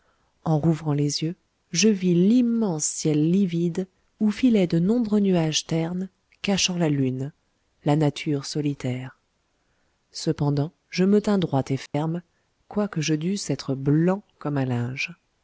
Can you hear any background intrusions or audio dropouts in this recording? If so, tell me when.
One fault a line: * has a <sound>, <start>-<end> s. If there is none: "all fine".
* has a dropout, 11.9-11.9 s